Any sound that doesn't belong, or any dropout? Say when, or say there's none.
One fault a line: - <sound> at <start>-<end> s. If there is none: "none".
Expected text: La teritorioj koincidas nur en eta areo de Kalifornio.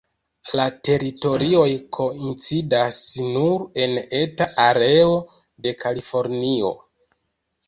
none